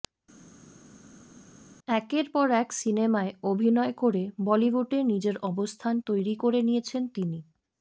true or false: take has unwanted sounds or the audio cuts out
false